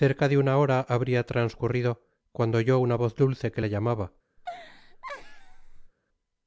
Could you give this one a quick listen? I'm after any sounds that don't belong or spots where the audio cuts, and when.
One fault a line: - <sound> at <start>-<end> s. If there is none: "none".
- laugh at 4.4-5.9 s